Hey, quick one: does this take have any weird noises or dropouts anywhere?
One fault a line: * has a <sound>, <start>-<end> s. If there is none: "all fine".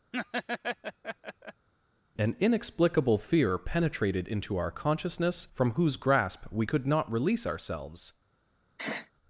* has a laugh, 0.1-1.7 s
* has a sneeze, 8.8-9.1 s